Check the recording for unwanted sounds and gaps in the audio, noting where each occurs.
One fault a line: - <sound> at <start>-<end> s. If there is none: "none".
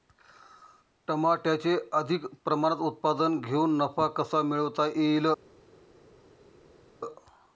none